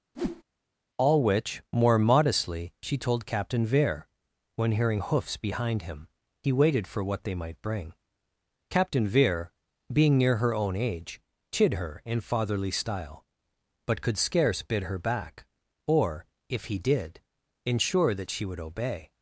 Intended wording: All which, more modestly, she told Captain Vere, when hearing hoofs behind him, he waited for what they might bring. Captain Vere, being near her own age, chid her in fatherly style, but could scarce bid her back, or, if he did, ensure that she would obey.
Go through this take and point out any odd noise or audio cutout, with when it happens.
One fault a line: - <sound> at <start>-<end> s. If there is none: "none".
- whoosh at 0.1-0.4 s